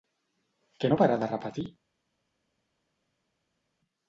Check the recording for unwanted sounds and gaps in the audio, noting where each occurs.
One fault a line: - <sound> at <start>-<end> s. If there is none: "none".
none